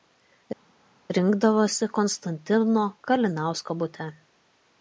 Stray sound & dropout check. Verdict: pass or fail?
pass